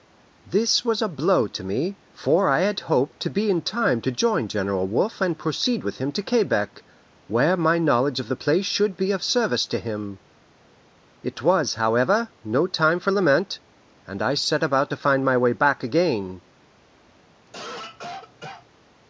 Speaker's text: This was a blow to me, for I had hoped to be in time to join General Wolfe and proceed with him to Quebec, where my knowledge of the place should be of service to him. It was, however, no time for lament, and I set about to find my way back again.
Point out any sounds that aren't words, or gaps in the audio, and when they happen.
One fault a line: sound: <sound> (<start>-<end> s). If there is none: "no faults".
sound: cough (17.5-18.7 s)